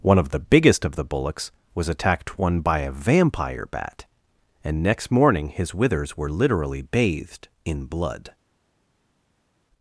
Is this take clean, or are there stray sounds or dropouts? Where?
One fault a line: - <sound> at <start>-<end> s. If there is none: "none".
none